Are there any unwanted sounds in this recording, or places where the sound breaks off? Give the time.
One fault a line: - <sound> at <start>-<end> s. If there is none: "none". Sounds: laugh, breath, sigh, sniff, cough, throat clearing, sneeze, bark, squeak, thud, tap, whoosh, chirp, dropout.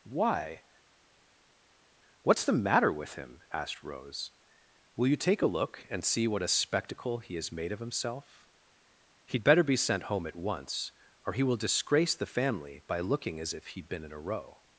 none